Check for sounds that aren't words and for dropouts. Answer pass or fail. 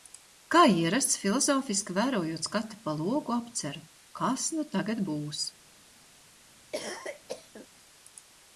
fail